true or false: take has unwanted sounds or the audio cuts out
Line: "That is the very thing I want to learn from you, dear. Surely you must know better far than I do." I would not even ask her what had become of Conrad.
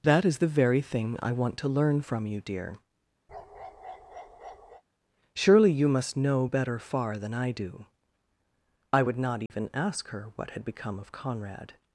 true